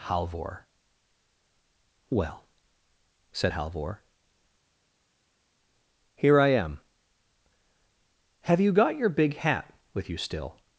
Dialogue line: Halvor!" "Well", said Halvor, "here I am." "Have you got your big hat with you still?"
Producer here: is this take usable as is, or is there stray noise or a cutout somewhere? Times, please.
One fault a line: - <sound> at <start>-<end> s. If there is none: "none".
none